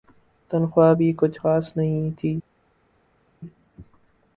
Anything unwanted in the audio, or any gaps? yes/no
no